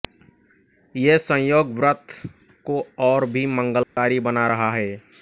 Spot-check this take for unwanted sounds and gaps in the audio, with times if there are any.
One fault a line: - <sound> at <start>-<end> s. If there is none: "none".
- dropout at 3.8-4.0 s